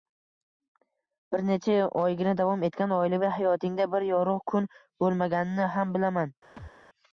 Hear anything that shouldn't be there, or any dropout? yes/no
yes